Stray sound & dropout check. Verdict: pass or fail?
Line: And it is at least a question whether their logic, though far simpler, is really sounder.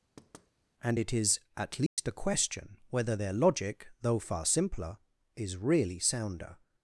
fail